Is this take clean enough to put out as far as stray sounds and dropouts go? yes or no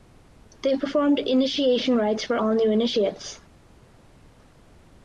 yes